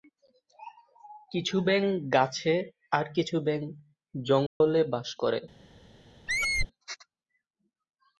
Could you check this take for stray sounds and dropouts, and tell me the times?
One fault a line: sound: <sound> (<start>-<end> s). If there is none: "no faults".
sound: dropout (4.5-4.6 s)
sound: squeak (6.3-6.7 s)